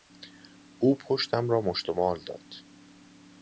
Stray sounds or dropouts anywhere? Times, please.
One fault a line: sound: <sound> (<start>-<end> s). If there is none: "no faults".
no faults